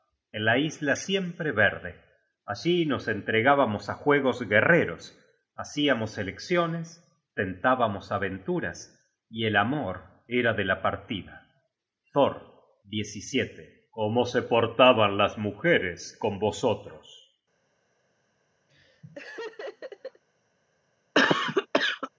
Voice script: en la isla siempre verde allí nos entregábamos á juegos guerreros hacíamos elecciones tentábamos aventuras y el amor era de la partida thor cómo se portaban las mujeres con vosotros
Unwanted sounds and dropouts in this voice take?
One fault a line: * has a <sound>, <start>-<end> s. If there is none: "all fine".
* has a laugh, 18.7-20.2 s
* has a cough, 21.1-22.1 s